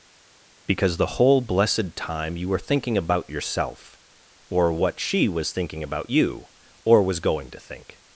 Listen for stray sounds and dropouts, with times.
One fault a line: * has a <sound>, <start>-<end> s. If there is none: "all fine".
all fine